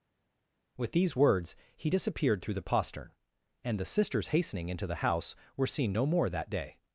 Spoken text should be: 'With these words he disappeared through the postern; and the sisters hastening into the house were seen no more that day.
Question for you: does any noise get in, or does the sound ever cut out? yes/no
no